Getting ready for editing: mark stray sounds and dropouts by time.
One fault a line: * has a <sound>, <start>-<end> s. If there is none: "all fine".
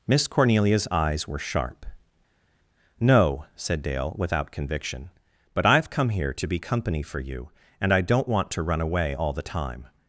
all fine